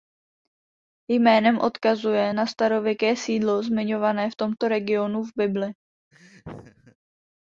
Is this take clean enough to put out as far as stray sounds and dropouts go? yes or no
no